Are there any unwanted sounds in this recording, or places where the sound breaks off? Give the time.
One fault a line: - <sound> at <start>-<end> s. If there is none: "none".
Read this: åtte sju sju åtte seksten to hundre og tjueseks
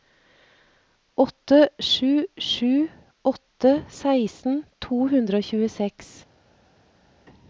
none